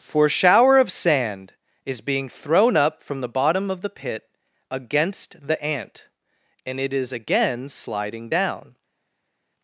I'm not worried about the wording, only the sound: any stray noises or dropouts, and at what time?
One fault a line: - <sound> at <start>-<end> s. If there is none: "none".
none